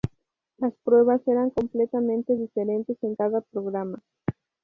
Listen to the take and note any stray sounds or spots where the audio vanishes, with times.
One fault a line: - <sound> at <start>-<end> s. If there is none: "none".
none